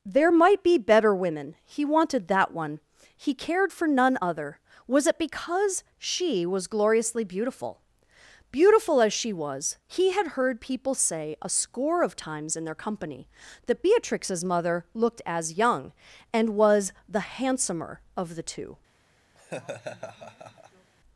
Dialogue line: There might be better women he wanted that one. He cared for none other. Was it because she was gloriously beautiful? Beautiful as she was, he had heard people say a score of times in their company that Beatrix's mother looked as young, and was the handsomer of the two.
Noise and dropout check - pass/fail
fail